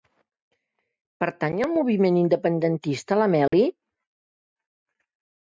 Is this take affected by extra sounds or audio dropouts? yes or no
yes